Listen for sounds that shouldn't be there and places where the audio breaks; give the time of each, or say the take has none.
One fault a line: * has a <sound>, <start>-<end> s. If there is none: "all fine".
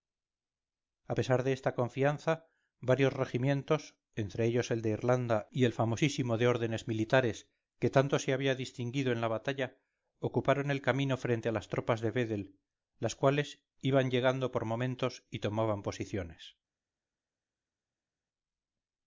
all fine